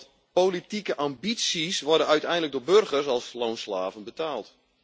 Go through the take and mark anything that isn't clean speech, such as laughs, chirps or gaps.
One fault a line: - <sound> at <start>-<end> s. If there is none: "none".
none